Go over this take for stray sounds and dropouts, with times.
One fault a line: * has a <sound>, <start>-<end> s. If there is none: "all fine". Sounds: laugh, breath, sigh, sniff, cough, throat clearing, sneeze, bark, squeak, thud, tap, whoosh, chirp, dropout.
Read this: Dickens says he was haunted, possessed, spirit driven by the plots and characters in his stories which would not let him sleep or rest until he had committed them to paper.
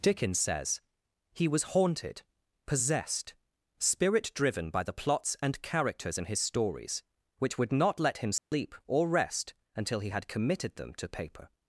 * has a dropout, 8.4-8.5 s